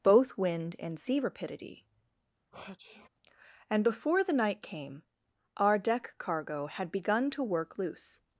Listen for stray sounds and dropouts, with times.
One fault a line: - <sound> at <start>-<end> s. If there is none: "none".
- sneeze at 2.5-3.1 s